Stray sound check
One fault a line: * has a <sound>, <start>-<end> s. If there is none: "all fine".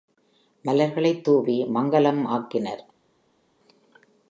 all fine